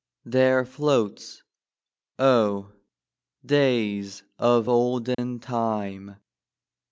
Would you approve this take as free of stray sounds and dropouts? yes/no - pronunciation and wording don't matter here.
no